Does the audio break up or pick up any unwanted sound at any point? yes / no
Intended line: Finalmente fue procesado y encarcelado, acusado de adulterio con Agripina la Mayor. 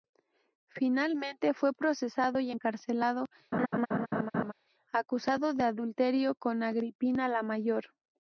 yes